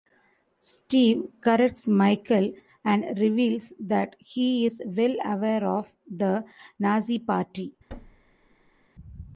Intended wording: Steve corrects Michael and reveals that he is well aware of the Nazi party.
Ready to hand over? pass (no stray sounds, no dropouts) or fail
fail